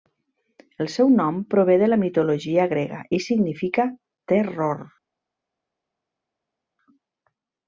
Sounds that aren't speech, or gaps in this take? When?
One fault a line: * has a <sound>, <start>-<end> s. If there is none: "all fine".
all fine